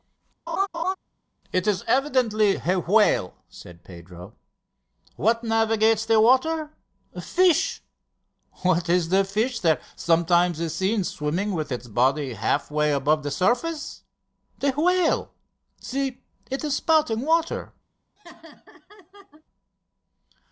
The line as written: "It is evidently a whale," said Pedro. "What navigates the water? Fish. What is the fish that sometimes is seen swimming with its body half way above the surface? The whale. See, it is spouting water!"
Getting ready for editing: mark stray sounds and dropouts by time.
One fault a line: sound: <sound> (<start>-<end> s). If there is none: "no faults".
sound: laugh (0.5-1.0 s)
sound: laugh (18.2-19.4 s)